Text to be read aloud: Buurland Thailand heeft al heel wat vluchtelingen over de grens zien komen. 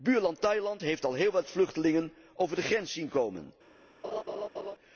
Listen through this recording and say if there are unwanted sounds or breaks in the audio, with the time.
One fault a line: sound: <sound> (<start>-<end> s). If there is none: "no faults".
sound: laugh (4.0-4.8 s)